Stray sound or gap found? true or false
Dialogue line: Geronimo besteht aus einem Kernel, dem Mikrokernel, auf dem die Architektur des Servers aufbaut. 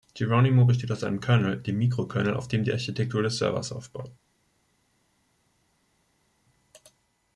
false